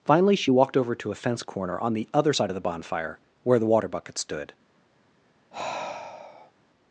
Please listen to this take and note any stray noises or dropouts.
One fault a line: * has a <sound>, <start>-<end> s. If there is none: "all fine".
* has a sigh, 5.5-6.5 s